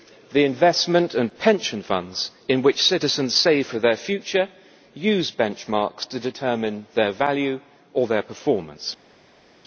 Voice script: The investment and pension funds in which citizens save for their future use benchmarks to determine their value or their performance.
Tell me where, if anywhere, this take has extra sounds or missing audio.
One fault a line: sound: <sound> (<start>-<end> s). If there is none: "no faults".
no faults